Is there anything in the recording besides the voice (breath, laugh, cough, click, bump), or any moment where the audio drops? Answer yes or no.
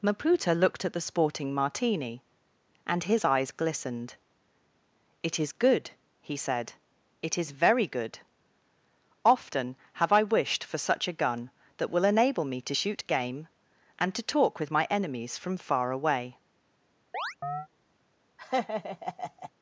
yes